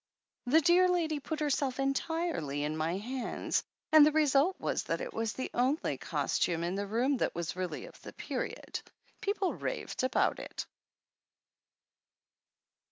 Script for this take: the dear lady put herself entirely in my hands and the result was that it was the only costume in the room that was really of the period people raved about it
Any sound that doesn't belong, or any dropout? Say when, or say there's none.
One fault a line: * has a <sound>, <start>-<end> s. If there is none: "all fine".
all fine